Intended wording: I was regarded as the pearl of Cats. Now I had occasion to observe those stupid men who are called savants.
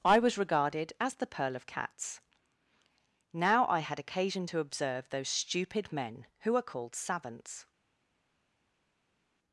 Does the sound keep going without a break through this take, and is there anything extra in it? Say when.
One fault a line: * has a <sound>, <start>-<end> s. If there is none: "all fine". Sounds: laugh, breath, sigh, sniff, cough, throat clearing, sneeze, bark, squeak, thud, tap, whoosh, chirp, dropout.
all fine